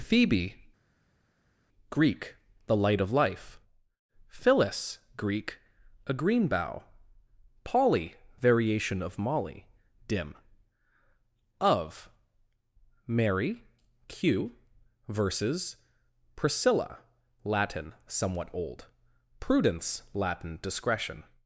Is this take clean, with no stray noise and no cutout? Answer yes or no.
yes